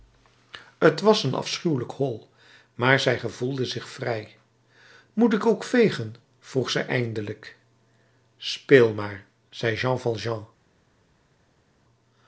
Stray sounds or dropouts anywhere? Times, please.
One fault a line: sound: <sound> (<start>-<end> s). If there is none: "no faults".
no faults